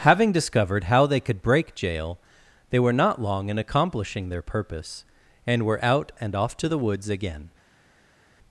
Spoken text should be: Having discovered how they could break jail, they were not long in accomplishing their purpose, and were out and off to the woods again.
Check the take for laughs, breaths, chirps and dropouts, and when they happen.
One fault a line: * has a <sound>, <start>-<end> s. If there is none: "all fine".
all fine